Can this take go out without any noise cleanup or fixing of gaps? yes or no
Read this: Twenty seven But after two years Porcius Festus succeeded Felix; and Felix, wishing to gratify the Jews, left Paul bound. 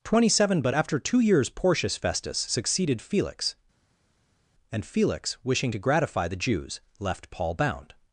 yes